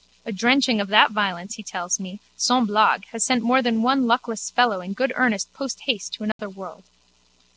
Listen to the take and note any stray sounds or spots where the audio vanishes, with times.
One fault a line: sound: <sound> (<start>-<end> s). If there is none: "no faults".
sound: dropout (6.3-6.4 s)